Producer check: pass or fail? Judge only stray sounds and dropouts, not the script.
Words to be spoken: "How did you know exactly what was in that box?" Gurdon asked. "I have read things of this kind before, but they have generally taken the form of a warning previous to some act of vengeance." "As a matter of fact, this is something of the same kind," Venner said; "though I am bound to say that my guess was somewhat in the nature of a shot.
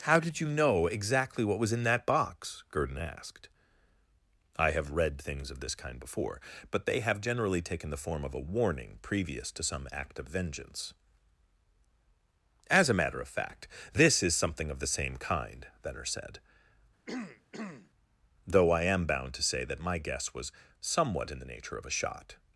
fail